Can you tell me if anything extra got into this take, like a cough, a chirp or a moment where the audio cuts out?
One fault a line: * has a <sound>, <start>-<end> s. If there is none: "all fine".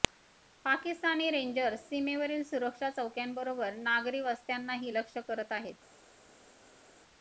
all fine